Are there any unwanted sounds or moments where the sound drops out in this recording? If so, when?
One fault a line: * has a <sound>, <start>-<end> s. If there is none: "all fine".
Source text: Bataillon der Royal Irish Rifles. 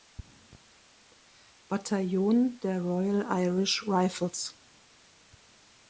all fine